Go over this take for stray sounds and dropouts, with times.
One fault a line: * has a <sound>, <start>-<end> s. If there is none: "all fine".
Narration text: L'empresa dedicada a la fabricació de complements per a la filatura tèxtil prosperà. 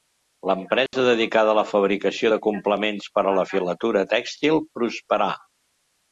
* has a dropout, 0.9-0.9 s